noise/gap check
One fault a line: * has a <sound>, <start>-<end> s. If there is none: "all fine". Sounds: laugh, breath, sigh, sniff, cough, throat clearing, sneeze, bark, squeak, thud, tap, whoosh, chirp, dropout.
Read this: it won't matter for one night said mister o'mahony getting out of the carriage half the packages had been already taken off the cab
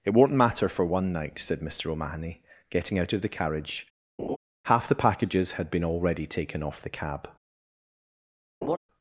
* has a laugh, 4.2-4.4 s
* has a laugh, 8.6-8.8 s